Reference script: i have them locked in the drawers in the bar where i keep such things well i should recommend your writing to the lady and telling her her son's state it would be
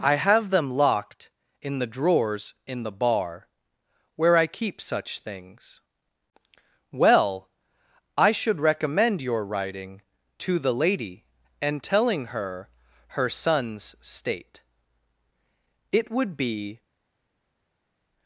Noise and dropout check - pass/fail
pass